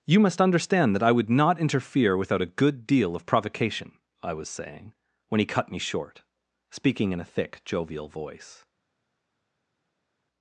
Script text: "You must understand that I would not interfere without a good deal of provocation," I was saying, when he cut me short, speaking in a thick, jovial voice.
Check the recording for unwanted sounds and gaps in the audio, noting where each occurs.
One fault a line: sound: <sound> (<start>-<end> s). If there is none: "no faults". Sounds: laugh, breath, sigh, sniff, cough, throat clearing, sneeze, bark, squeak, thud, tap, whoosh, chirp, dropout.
no faults